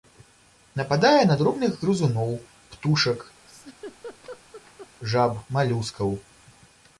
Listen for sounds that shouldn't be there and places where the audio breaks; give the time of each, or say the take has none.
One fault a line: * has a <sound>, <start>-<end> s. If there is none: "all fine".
* has a laugh, 3.5-4.9 s